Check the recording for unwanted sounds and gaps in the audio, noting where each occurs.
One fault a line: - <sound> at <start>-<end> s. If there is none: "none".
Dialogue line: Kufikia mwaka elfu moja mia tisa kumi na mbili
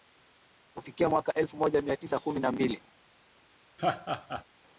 - laugh at 3.8-4.4 s